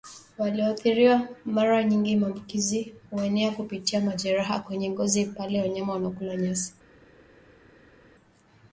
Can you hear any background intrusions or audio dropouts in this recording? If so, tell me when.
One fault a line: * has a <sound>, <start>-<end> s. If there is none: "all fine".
all fine